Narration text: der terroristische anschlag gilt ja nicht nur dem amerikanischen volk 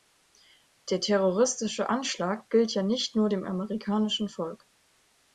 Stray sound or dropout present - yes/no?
no